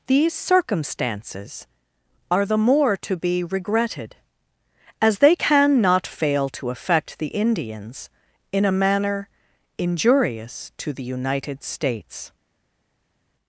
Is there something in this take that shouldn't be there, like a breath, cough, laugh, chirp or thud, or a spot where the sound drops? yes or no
no